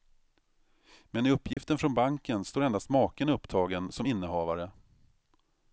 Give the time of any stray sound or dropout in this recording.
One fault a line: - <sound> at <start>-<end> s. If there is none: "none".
- dropout at 1.5-1.6 s